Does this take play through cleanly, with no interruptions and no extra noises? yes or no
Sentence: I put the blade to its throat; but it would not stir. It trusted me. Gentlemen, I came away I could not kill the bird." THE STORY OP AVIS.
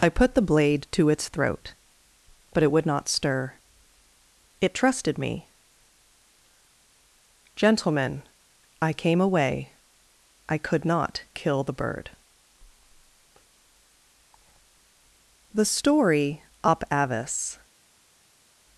yes